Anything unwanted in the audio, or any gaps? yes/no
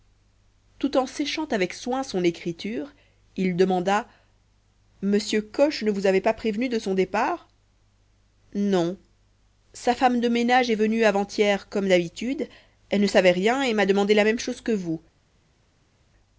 no